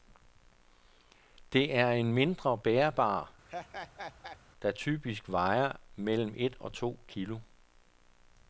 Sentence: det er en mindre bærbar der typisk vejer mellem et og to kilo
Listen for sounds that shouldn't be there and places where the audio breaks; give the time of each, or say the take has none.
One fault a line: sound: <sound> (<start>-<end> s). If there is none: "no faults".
sound: laugh (3.5-4.4 s)